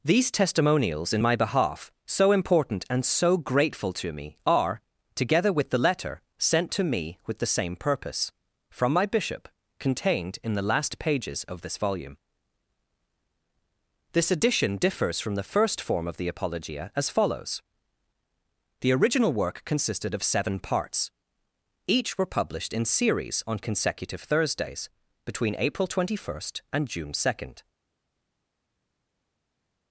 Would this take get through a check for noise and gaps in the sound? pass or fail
pass